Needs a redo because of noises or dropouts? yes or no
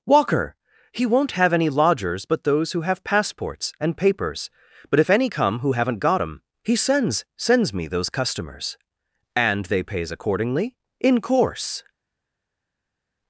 no